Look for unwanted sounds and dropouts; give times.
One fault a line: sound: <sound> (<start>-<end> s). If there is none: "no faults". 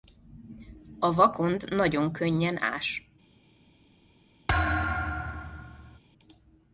sound: thud (4.5-6.0 s)